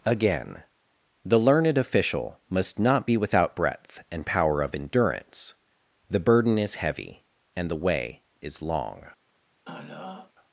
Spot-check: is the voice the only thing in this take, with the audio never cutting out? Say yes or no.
no